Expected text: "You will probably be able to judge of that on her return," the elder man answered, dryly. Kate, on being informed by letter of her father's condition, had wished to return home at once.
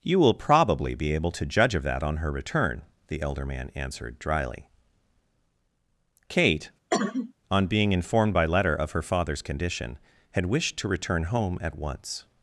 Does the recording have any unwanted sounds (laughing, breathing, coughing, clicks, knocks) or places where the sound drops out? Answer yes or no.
yes